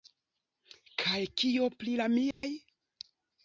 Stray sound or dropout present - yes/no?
yes